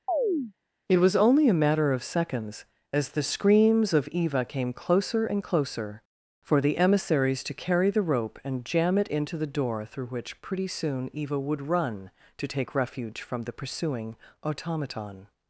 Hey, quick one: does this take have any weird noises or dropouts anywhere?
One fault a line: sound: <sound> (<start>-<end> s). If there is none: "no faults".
sound: chirp (0.1-0.5 s)